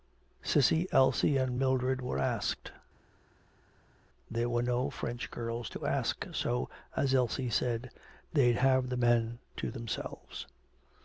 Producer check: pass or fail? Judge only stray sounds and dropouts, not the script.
pass